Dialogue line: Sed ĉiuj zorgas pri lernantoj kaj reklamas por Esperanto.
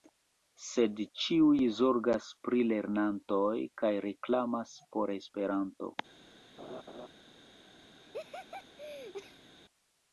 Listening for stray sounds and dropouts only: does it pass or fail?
fail